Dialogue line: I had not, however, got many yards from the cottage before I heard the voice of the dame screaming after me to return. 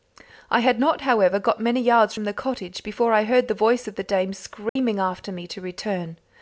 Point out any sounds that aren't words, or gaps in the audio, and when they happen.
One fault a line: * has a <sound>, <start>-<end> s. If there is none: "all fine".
* has a dropout, 4.7-4.8 s